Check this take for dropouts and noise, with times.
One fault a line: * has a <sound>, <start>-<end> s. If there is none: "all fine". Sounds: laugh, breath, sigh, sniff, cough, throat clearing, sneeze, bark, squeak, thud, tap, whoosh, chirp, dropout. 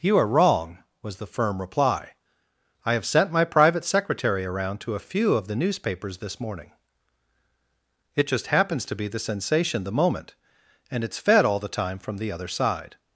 all fine